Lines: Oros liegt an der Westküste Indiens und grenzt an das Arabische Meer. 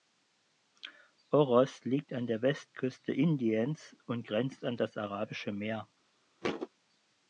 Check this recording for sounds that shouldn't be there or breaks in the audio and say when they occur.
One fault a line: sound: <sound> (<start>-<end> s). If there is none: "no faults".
sound: thud (6.4-6.7 s)